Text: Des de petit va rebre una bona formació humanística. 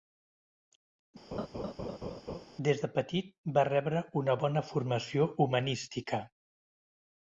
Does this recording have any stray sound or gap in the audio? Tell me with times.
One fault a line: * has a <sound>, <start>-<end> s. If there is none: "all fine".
* has a laugh, 1.3-2.5 s